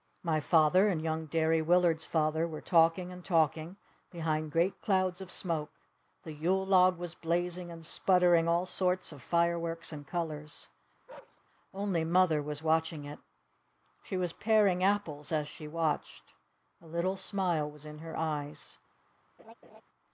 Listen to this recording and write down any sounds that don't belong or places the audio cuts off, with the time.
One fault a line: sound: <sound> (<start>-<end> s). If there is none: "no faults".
sound: bark (11.1-11.4 s)
sound: laugh (19.4-19.8 s)